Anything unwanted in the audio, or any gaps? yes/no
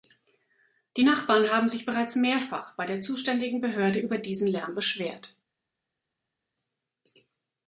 no